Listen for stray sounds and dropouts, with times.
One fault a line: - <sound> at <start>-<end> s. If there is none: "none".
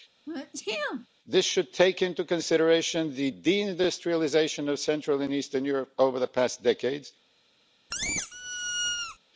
- sneeze at 0.3-1.1 s
- squeak at 7.9-9.2 s